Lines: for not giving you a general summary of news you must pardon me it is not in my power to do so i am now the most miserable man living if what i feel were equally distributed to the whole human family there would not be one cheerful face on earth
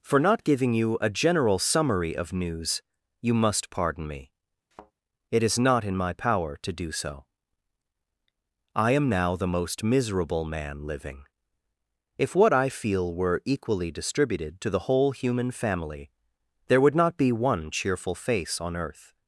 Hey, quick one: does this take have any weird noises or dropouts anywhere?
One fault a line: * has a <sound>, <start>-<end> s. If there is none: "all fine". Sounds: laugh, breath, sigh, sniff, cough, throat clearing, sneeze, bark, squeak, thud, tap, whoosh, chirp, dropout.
* has a thud, 4.7-4.9 s